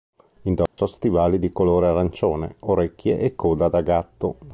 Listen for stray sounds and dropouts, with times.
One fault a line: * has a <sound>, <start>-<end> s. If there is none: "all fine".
* has a dropout, 0.7-0.8 s